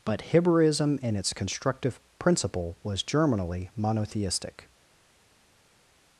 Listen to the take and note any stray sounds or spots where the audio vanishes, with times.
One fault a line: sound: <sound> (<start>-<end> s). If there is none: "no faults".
no faults